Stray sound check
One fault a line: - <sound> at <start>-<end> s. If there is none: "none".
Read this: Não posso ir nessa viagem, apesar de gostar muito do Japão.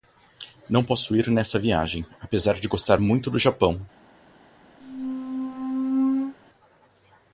- squeak at 4.8-6.4 s